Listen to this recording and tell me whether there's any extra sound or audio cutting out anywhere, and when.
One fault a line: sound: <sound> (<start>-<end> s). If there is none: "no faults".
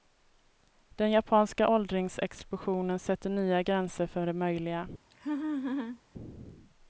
sound: laugh (5.1-6.0 s)